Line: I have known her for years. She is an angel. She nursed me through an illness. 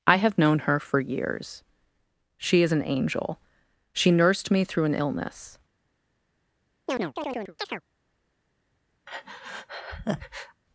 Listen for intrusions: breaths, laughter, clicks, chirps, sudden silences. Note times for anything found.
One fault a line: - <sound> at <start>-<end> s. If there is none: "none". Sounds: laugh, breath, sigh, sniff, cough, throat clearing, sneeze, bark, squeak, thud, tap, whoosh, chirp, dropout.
- chirp at 6.9-7.8 s
- breath at 9.1-10.6 s